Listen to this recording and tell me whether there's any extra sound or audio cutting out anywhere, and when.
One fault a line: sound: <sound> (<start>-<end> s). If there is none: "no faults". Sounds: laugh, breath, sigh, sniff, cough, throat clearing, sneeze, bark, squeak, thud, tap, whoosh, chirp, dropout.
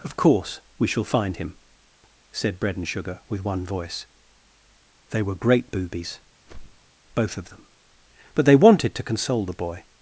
sound: whoosh (6.4-6.9 s)